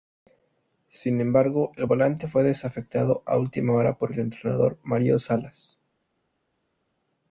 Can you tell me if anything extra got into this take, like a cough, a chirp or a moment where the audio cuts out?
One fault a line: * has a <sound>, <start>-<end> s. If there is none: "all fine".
all fine